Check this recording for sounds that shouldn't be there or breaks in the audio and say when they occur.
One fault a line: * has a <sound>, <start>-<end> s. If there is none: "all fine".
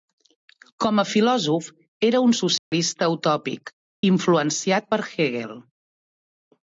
* has a dropout, 2.6-2.7 s